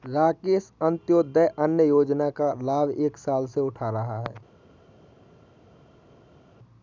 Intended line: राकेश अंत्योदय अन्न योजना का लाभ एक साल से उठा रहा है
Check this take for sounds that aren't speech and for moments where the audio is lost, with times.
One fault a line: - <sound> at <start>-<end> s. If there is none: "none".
none